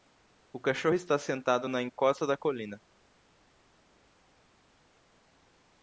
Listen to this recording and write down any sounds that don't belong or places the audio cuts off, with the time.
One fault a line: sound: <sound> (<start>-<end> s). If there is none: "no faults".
no faults